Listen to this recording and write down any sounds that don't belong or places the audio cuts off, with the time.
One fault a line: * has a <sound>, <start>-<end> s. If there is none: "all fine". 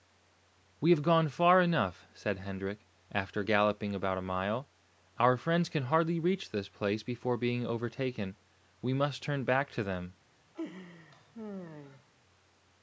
* has a laugh, 10.5-12.1 s